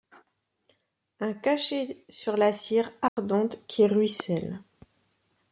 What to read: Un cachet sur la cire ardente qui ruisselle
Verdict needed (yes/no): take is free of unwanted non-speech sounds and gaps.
no